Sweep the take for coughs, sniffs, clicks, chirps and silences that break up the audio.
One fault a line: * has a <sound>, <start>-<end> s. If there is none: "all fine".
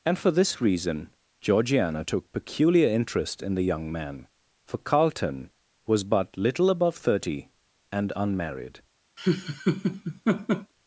* has a laugh, 9.2-10.7 s